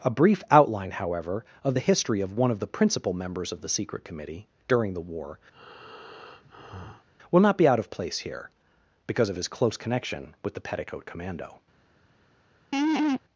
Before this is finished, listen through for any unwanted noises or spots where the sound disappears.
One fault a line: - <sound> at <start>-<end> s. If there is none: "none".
- breath at 5.5-7.1 s
- laugh at 12.7-13.2 s